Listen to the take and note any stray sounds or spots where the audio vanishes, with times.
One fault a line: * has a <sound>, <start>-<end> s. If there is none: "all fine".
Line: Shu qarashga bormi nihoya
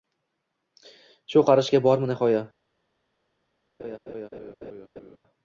* has a laugh, 3.8-5.2 s